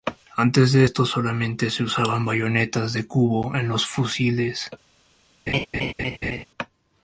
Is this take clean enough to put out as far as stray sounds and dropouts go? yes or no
no